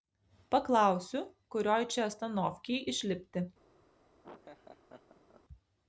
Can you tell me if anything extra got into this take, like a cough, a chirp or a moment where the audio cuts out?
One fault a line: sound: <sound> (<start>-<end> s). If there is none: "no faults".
sound: laugh (4.2-5.4 s)